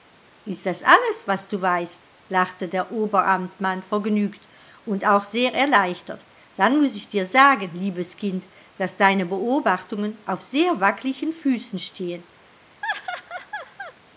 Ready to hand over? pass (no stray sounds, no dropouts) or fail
fail